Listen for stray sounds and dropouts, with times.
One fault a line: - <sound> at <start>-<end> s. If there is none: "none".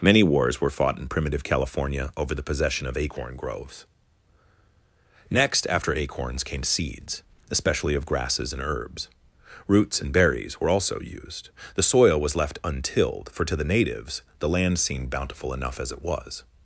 none